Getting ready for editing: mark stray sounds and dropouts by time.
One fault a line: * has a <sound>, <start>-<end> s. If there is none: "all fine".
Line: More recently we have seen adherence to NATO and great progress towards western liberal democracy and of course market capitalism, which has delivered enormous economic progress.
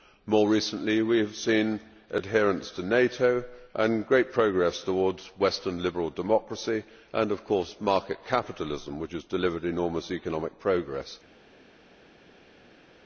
all fine